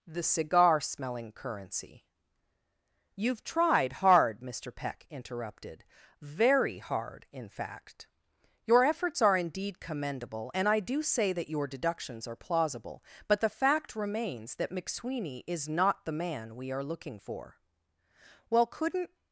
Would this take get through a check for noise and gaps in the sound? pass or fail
pass